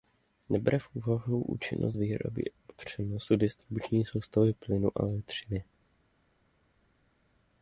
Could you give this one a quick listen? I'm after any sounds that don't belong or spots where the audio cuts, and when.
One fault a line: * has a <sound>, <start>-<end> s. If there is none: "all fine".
all fine